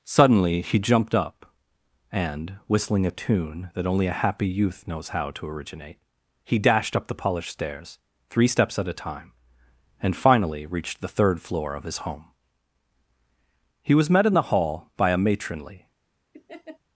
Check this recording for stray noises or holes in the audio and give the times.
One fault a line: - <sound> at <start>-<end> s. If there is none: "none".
- laugh at 16.3-16.8 s